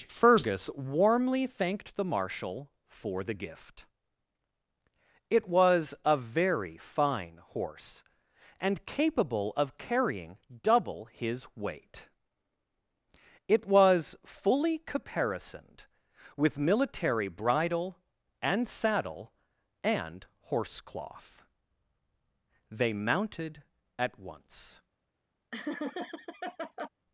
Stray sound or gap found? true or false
true